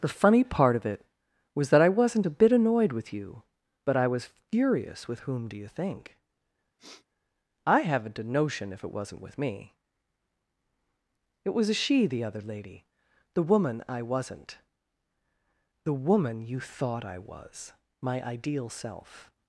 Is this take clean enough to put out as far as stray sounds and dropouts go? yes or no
no